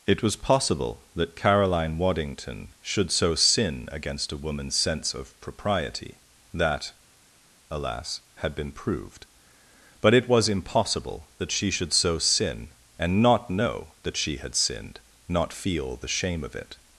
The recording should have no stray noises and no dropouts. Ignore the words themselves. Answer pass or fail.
pass